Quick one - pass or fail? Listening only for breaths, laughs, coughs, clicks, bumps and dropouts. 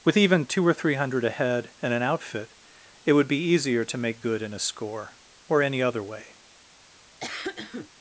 fail